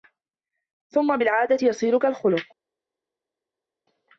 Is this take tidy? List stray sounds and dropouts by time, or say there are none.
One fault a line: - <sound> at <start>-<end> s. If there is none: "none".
none